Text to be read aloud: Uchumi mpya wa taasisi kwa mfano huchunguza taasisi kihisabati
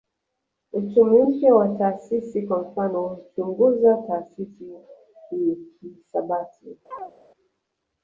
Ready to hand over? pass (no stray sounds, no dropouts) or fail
fail